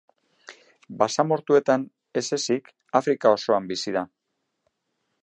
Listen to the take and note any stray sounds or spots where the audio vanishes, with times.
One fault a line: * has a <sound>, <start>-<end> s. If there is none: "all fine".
all fine